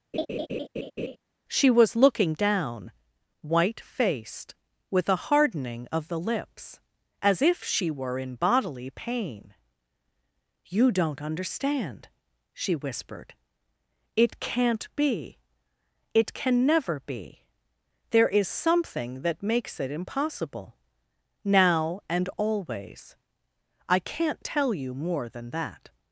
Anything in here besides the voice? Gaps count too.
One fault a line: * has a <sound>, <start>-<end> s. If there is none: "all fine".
* has a laugh, 0.1-1.2 s